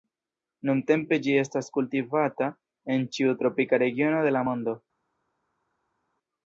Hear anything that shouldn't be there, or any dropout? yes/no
no